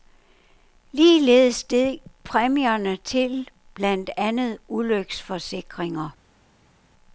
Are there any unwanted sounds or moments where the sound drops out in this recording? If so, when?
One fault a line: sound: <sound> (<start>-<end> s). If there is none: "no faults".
no faults